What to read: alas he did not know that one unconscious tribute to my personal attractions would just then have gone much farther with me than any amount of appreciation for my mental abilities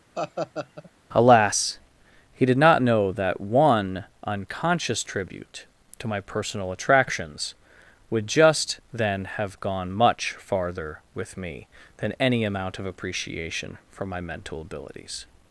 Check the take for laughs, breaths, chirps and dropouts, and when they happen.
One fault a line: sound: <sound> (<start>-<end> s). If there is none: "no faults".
sound: laugh (0.2-0.9 s)